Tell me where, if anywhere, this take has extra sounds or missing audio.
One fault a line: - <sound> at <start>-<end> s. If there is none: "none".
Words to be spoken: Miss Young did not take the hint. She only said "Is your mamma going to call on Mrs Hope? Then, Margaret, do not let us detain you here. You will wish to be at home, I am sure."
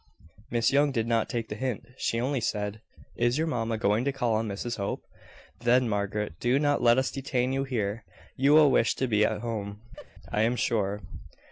- laugh at 10.0-10.1 s